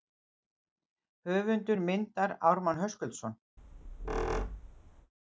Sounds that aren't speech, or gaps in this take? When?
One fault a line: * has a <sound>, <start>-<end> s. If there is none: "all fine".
* has a squeak, 3.6-5.1 s